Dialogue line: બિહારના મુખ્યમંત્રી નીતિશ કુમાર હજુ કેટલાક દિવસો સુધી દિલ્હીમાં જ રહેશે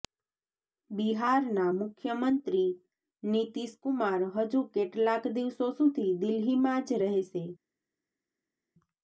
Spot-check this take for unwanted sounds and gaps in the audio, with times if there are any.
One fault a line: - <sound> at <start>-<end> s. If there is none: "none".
none